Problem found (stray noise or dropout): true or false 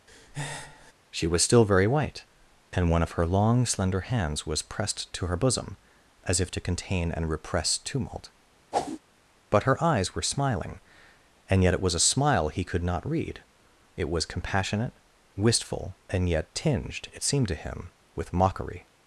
true